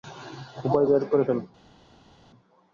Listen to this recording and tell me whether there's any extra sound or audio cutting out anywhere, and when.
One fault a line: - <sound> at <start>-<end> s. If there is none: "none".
none